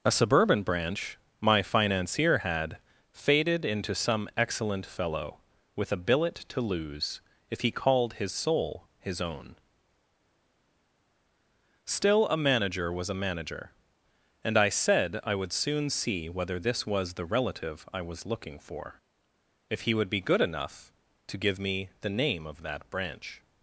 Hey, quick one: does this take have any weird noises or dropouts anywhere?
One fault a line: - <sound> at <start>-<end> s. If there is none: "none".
none